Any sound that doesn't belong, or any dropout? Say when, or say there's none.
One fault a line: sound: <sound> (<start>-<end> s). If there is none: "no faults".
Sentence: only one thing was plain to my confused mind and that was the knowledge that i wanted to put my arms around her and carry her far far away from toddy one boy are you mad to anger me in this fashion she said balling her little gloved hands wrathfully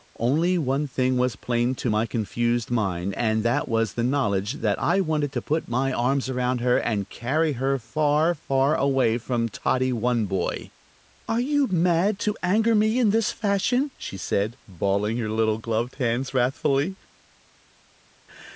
no faults